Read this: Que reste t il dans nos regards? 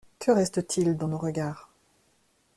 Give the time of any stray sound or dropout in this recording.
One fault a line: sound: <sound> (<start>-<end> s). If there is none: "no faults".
no faults